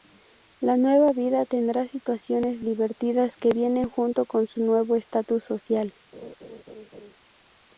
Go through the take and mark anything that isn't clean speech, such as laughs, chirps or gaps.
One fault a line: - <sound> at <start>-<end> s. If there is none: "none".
- laugh at 6.1-7.2 s